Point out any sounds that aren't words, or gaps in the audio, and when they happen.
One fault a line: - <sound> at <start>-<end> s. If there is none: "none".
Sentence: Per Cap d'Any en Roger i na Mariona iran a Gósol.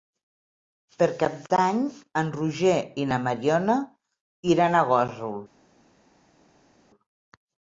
none